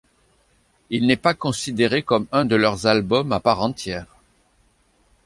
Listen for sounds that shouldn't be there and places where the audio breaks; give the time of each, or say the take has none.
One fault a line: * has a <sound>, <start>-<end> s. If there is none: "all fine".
all fine